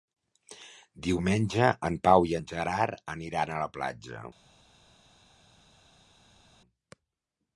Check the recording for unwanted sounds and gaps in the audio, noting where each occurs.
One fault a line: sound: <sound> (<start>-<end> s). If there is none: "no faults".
no faults